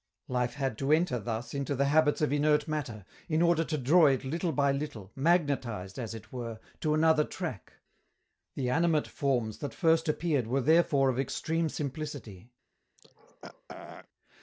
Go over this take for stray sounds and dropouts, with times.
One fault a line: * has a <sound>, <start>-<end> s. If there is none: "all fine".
* has a throat clearing, 13.0-14.1 s